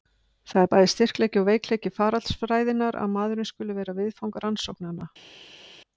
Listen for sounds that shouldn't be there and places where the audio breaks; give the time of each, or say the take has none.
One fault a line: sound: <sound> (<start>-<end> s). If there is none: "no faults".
no faults